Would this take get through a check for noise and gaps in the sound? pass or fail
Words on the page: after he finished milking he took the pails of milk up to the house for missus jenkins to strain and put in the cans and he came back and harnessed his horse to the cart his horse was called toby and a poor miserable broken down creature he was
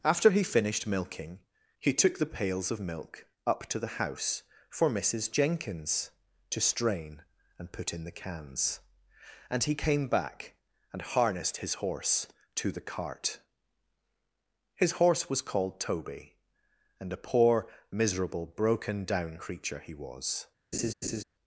fail